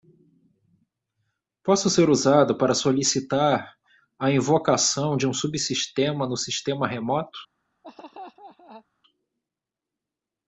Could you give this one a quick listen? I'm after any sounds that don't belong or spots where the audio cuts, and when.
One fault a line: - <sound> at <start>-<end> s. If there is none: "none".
- laugh at 7.8-8.9 s